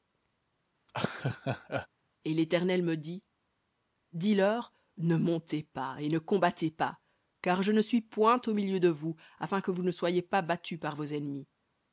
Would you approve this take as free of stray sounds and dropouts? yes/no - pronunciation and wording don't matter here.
no